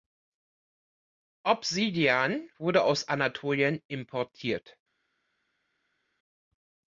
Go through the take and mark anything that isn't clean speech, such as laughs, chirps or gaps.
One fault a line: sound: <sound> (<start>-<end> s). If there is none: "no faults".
no faults